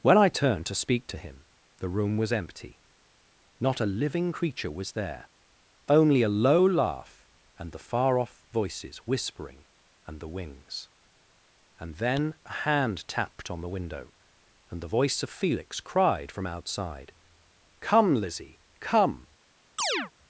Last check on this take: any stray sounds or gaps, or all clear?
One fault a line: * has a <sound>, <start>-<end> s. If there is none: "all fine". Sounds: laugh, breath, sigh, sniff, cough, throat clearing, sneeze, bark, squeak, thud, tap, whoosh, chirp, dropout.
* has a chirp, 19.8-20.1 s